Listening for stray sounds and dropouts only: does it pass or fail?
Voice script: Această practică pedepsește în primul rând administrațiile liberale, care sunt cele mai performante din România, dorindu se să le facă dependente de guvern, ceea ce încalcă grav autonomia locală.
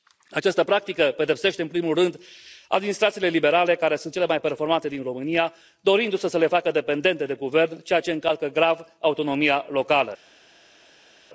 pass